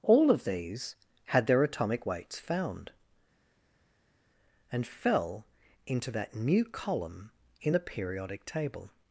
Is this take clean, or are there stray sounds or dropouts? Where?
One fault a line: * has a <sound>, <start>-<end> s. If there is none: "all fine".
all fine